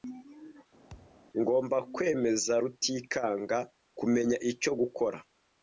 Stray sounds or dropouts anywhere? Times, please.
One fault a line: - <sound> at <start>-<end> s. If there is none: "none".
- thud at 0.9-1.2 s